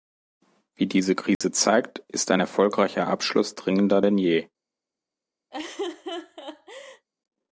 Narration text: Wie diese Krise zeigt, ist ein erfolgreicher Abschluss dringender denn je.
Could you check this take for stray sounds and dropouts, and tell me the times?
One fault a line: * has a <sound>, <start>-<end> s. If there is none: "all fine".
* has a dropout, 1.3-1.4 s
* has a laugh, 5.5-7.1 s